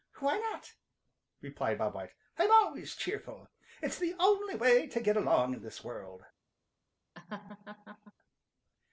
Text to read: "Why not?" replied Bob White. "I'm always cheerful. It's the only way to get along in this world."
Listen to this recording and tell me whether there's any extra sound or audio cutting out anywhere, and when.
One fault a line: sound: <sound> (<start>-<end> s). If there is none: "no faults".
sound: laugh (7.1-8.1 s)